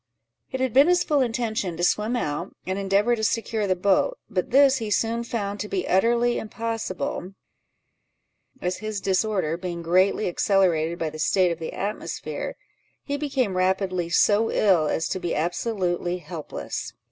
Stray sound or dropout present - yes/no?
no